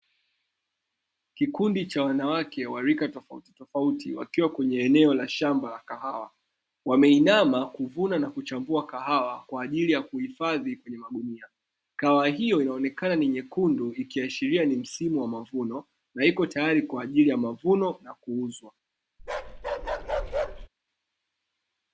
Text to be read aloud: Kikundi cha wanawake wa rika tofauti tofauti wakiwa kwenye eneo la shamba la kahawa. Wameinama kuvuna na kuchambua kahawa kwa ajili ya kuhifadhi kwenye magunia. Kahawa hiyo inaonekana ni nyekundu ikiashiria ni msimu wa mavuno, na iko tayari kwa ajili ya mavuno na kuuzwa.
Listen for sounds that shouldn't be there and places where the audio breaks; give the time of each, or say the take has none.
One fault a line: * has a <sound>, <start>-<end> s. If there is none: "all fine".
* has a bark, 19.2-20.7 s